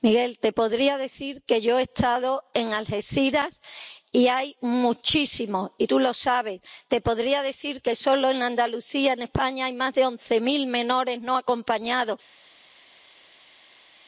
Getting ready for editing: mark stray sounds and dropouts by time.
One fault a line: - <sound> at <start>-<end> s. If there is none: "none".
none